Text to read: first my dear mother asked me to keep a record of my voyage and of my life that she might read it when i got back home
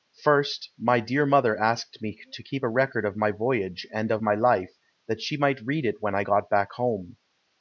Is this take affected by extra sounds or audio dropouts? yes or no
no